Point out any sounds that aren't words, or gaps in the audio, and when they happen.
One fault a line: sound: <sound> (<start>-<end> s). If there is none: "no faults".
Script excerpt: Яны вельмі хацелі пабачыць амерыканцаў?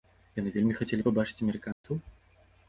sound: dropout (1.7-1.8 s)